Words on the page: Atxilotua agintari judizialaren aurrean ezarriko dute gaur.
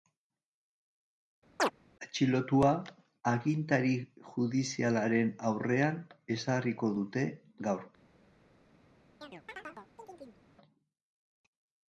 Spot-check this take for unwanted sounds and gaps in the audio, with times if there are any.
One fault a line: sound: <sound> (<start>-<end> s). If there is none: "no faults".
sound: chirp (1.6-1.7 s)
sound: chirp (9.2-10.4 s)